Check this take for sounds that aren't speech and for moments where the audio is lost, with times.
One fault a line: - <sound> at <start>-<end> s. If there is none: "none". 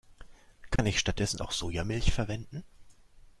- dropout at 0.8-0.8 s